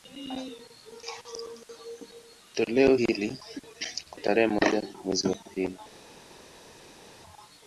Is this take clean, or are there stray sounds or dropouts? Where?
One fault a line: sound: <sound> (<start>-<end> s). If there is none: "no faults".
no faults